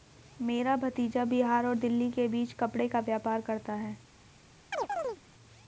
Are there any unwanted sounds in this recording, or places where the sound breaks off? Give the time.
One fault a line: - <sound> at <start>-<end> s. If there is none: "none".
- chirp at 4.7-5.2 s